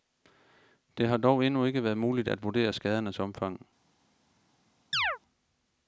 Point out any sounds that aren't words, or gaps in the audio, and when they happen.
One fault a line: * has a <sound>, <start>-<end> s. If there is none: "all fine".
* has a chirp, 4.9-5.2 s